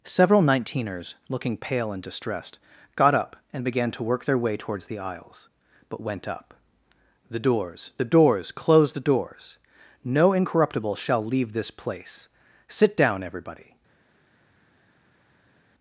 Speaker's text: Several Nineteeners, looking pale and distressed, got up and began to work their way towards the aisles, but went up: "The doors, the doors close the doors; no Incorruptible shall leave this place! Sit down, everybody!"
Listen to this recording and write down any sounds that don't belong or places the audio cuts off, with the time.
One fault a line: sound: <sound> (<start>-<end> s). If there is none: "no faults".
no faults